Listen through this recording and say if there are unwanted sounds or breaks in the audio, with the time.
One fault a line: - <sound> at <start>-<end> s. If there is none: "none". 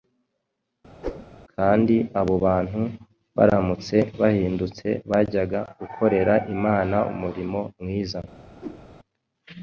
- whoosh at 1.0-1.3 s
- whoosh at 8.6-8.8 s